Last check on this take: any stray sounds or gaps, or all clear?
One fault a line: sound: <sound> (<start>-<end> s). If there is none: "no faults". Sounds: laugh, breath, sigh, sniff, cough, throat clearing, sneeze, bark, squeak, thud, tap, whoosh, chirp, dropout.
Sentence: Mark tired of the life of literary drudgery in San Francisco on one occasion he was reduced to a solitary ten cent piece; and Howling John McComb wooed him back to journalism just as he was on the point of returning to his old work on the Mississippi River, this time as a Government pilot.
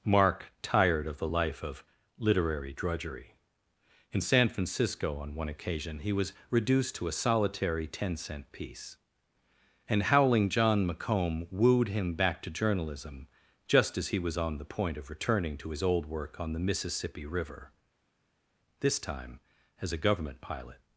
no faults